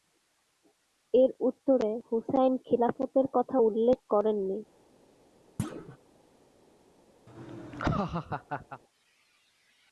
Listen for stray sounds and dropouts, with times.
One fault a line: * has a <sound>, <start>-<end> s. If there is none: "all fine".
* has a thud, 5.6-6.0 s
* has a laugh, 7.3-8.8 s